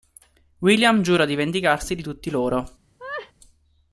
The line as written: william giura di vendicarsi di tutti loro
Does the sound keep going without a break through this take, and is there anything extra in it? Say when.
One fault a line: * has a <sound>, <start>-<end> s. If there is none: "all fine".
* has a laugh, 3.0-3.3 s